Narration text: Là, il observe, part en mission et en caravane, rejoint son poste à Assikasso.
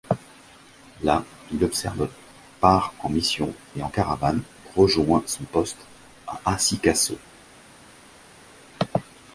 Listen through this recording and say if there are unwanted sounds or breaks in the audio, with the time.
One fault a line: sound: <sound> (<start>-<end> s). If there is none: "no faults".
no faults